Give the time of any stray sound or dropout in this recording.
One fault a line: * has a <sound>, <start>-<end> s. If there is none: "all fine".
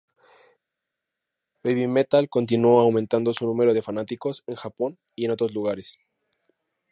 all fine